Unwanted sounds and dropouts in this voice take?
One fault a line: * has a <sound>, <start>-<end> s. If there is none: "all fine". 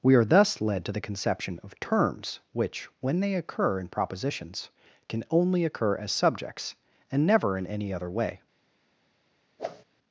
* has a whoosh, 9.6-9.8 s